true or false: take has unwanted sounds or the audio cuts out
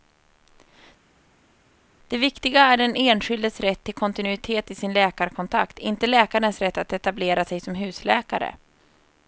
false